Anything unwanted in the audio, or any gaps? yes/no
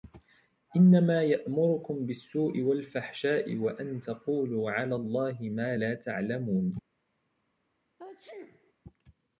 yes